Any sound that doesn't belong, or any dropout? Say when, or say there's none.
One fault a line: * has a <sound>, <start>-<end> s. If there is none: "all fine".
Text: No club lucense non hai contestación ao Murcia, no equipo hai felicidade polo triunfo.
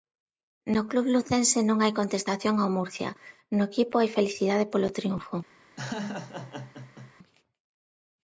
* has a laugh, 5.8-7.1 s